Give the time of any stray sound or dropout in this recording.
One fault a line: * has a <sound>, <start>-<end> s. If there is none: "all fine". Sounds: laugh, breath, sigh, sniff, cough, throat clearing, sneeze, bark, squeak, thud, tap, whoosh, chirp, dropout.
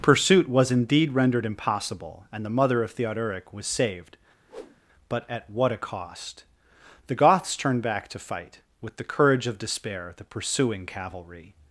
* has a whoosh, 4.5-4.8 s